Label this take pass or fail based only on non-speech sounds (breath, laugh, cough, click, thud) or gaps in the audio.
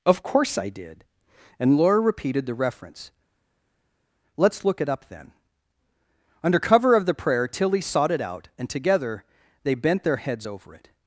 pass